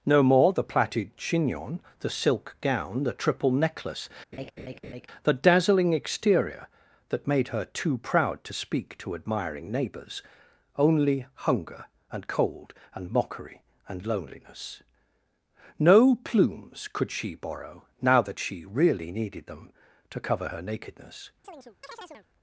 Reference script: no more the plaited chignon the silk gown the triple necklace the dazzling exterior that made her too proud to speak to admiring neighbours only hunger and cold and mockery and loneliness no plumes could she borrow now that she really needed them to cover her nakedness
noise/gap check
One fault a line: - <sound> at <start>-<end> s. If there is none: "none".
- laugh at 4.3-5.1 s
- chirp at 21.4-22.3 s